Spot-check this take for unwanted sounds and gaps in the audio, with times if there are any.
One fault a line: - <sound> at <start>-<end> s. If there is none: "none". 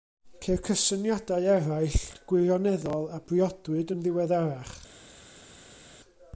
none